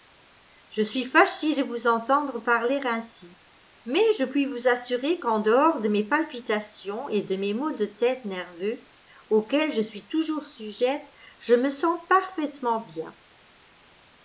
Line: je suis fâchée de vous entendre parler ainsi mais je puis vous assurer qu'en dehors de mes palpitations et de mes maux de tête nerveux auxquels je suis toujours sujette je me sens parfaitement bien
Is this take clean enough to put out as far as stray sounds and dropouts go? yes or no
yes